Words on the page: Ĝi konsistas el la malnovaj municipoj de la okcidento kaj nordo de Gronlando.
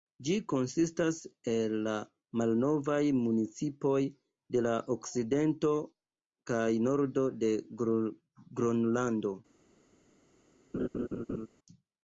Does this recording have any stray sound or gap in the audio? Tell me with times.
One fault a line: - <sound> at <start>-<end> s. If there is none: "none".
- laugh at 10.7-11.5 s